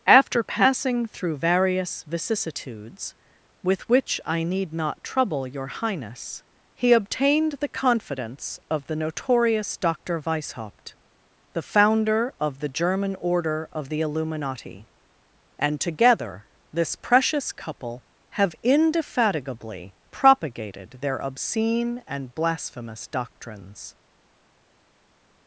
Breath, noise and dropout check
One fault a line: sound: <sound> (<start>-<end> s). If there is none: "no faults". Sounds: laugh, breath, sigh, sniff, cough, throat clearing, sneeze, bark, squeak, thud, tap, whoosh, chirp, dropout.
no faults